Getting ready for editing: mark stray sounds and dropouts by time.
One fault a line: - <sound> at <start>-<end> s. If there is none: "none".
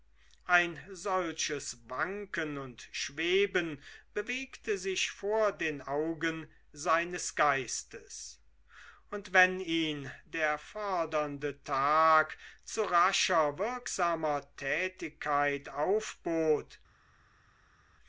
none